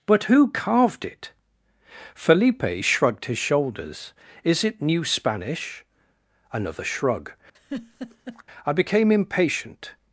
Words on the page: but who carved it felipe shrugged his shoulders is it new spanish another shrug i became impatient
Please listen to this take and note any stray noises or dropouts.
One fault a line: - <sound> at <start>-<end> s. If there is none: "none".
- laugh at 7.5-8.4 s